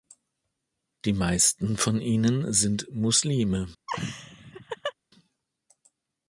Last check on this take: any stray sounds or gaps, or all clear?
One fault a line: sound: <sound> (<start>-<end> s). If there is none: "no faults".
sound: laugh (3.9-4.9 s)